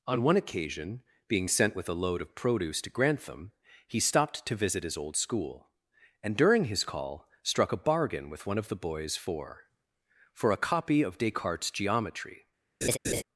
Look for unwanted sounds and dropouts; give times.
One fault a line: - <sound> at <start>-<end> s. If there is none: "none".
- laugh at 12.8-13.2 s